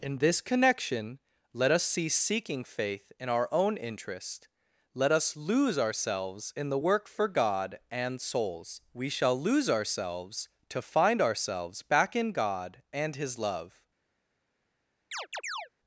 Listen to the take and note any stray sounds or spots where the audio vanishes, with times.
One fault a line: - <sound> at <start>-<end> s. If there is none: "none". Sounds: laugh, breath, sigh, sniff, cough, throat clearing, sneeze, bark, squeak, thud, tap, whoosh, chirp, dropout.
- chirp at 15.1-15.7 s